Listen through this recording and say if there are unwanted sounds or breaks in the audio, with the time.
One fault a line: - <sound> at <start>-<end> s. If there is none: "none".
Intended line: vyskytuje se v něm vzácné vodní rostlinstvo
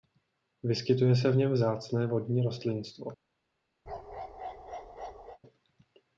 - bark at 3.9-5.4 s